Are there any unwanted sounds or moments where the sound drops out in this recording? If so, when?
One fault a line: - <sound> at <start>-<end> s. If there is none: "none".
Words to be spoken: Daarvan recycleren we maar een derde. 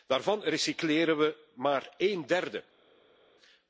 none